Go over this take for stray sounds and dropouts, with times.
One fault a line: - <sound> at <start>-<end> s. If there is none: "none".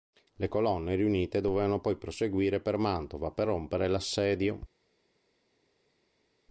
none